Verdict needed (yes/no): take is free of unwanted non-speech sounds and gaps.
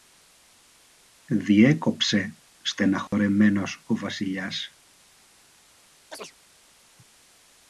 no